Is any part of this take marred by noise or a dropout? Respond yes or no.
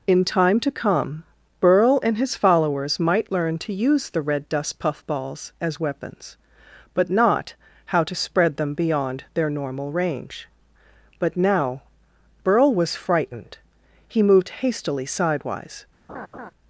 yes